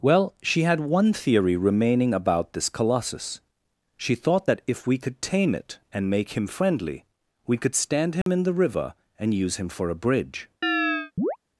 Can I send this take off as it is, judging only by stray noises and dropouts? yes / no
no